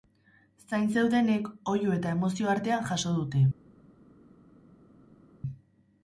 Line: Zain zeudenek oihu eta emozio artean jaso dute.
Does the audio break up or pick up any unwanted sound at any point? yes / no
no